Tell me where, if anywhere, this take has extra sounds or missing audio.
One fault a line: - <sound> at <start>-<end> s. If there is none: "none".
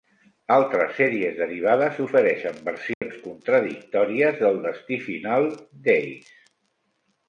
- dropout at 2.9-3.0 s